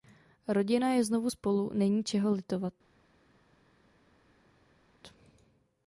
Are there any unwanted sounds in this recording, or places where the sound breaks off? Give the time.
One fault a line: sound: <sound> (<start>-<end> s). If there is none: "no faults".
no faults